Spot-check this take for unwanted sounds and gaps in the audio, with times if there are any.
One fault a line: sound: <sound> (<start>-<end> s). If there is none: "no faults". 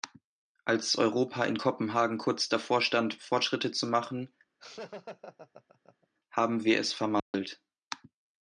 sound: laugh (4.6-6.1 s)
sound: dropout (7.2-7.3 s)